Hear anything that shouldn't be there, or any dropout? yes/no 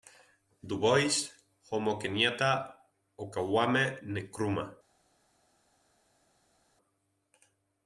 no